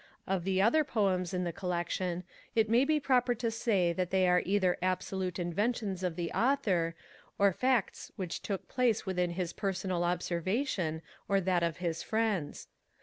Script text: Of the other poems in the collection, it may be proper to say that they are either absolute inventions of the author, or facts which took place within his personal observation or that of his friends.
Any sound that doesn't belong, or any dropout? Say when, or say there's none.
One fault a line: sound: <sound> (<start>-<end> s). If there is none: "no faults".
no faults